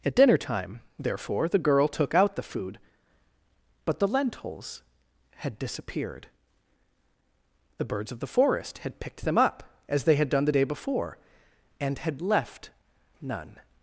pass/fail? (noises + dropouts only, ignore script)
pass